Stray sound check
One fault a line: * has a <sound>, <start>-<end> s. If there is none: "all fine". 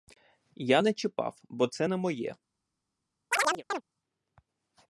* has a chirp, 3.3-3.8 s